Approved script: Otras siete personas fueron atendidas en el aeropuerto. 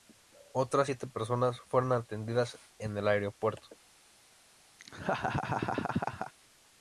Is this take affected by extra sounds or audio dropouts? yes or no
yes